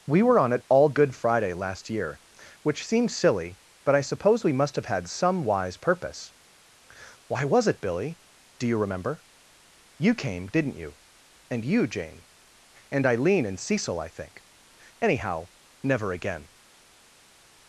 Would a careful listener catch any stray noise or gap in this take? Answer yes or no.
no